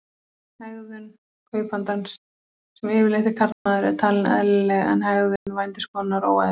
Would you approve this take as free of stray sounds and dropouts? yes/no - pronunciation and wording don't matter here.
no